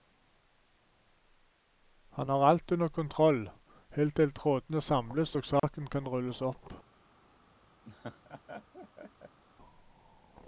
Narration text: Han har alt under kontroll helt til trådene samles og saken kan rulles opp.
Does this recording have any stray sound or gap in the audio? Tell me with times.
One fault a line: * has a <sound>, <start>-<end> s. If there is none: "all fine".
* has a dropout, 5.6-5.6 s
* has a laugh, 7.9-9.4 s